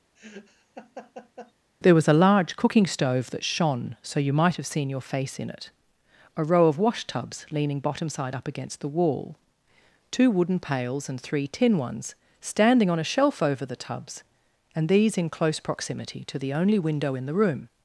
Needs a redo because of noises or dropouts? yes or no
yes